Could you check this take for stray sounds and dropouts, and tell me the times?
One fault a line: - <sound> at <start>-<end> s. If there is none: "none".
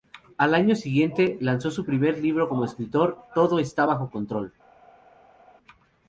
none